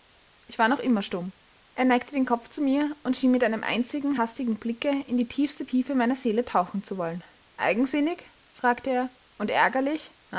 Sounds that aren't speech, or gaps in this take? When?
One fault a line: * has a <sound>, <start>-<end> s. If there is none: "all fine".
all fine